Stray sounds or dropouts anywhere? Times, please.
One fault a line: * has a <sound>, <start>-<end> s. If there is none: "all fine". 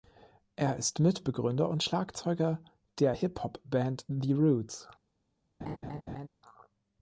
* has a laugh, 5.6-6.3 s